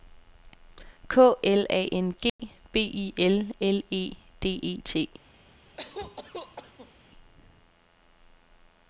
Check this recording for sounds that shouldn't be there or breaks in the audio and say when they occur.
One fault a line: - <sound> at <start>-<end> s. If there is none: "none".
- dropout at 2.3-2.4 s
- cough at 5.8-6.9 s